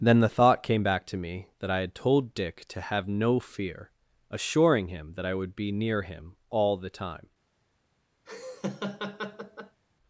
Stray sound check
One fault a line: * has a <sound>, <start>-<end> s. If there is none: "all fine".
* has a laugh, 8.3-9.8 s